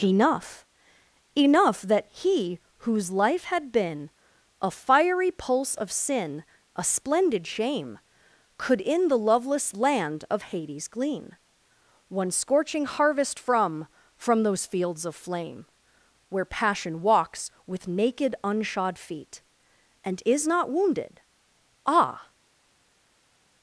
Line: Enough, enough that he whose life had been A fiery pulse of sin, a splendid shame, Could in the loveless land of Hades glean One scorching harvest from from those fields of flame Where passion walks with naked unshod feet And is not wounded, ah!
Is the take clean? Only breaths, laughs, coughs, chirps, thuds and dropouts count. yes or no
yes